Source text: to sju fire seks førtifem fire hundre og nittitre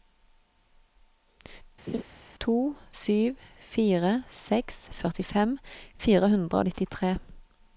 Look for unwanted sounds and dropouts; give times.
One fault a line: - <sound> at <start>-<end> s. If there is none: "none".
- laugh at 1.9-2.0 s